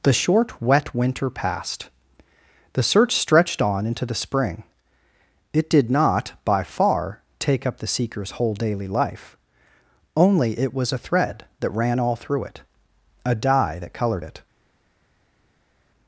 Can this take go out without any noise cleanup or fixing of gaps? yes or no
yes